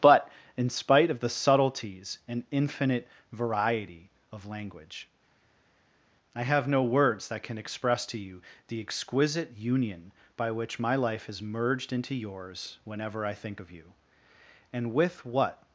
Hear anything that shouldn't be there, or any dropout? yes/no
no